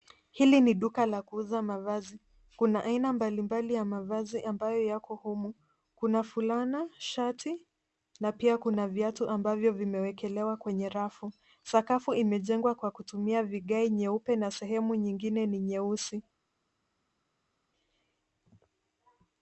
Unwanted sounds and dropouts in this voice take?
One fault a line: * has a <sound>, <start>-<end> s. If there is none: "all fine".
all fine